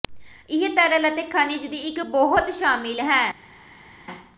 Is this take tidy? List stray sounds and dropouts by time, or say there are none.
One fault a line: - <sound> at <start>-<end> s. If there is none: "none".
none